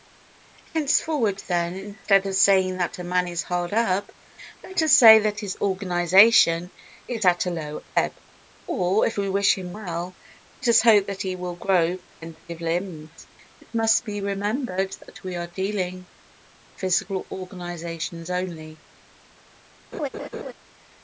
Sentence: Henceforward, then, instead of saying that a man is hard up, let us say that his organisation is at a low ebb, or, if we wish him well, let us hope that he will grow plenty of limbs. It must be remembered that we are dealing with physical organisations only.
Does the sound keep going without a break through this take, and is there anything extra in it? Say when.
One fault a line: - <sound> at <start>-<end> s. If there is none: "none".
- laugh at 19.9-20.5 s